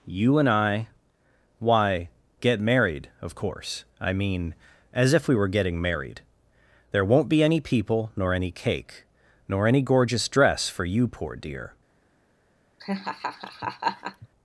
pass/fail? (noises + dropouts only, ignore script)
fail